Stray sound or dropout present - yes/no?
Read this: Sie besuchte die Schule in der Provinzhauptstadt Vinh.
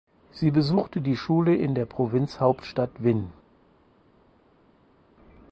no